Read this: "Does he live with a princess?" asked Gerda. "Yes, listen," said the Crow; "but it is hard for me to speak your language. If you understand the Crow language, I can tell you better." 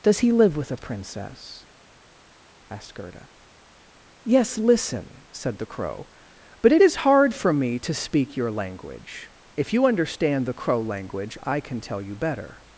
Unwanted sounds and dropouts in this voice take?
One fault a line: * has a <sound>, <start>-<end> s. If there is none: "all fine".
all fine